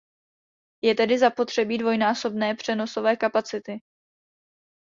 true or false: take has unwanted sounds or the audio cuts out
false